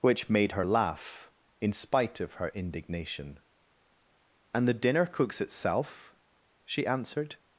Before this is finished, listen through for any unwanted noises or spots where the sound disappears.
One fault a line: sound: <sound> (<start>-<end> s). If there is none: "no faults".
no faults